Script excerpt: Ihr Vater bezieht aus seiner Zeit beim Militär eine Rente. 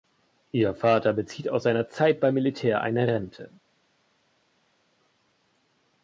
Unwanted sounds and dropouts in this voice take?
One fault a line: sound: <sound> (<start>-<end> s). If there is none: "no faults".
no faults